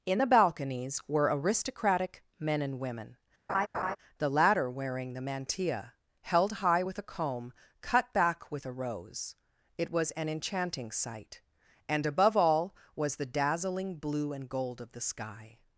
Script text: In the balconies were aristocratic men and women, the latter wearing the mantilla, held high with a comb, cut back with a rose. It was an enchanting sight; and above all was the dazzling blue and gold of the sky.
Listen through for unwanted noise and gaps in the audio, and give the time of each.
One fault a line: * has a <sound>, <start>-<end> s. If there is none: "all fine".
* has a laugh, 3.5-4.0 s